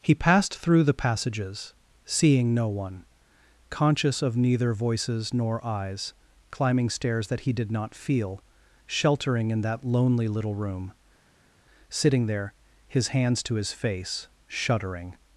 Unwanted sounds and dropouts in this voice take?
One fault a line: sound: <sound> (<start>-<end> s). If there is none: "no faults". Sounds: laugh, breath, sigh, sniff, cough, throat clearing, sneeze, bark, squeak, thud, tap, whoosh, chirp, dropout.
no faults